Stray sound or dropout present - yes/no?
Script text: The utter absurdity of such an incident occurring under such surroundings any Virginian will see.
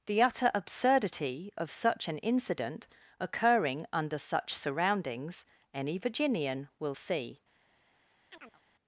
yes